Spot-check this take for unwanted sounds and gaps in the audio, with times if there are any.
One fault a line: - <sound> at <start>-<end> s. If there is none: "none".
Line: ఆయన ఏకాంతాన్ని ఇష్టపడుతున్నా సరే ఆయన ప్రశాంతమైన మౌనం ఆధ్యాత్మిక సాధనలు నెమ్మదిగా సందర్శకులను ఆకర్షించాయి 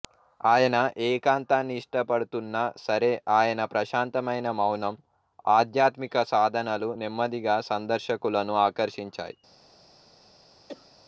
- cough at 10.7-10.9 s